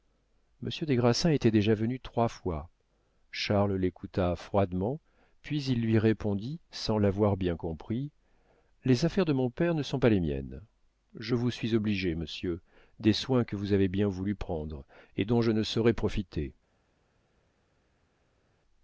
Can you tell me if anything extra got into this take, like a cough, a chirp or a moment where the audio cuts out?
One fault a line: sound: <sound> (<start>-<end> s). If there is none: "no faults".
no faults